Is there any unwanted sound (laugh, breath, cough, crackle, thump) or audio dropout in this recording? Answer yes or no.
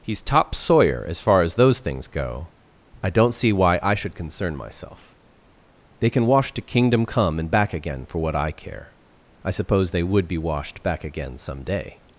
no